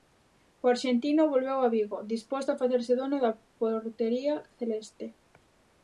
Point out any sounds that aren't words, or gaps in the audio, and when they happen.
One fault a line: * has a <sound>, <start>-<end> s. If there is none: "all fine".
all fine